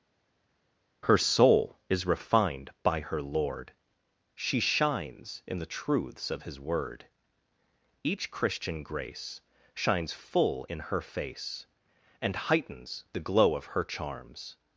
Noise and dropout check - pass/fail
pass